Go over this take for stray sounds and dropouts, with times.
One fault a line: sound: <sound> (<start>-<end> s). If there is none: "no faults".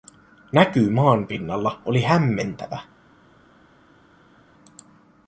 no faults